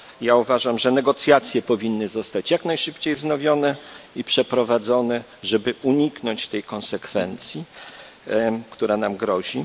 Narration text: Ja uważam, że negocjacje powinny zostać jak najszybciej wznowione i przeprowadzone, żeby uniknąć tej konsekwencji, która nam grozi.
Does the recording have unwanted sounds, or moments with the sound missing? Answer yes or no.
no